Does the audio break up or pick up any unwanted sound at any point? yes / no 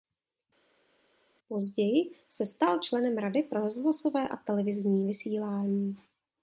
no